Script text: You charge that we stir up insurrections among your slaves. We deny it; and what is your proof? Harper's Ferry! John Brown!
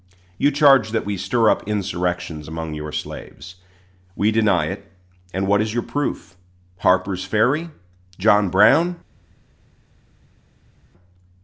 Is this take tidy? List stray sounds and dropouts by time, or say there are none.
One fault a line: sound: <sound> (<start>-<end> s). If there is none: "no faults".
no faults